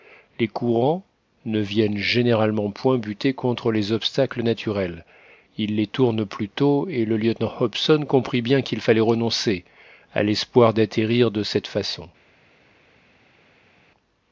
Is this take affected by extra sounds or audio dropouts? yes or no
no